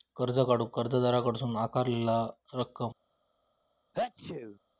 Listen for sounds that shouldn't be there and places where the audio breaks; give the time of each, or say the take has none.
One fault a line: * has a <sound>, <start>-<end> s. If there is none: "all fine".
* has a sneeze, 3.9-4.6 s